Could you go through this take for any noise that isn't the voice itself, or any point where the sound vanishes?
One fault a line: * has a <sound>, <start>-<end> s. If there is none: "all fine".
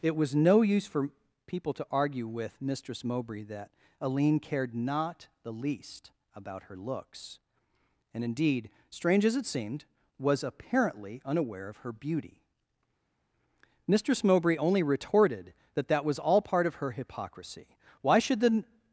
all fine